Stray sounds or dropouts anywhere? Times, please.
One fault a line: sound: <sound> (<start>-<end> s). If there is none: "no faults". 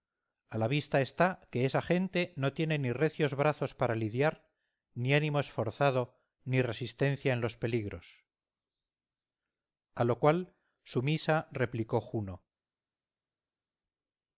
no faults